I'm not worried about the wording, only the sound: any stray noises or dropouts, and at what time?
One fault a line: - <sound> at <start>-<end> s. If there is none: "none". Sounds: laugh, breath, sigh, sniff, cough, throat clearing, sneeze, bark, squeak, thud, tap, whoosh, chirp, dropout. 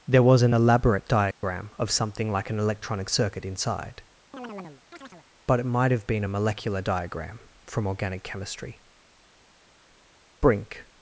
- dropout at 1.3-1.4 s
- chirp at 4.3-5.3 s